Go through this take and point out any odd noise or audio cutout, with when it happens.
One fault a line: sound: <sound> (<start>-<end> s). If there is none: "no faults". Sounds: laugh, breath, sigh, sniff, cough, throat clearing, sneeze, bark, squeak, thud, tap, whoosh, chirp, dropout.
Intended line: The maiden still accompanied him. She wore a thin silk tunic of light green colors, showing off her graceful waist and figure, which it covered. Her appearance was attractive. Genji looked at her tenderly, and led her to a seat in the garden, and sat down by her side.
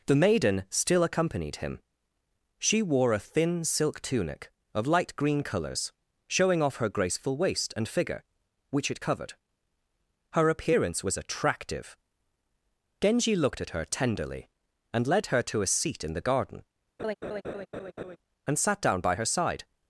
sound: laugh (17.0-18.2 s)